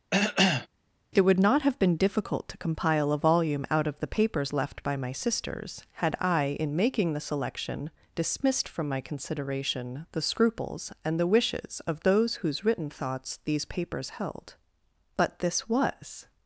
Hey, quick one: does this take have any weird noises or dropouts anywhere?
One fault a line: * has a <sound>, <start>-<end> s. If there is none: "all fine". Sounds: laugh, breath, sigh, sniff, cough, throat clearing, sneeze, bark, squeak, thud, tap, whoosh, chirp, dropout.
* has a cough, 0.1-0.7 s